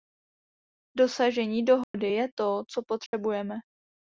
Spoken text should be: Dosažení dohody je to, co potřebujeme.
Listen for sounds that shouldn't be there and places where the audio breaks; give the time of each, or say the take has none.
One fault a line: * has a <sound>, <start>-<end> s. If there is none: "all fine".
* has a dropout, 1.8-1.9 s
* has a dropout, 3.1-3.1 s